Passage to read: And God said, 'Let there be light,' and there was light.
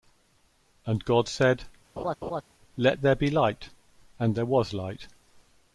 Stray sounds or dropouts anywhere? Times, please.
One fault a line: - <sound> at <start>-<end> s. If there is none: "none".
- laugh at 2.0-2.4 s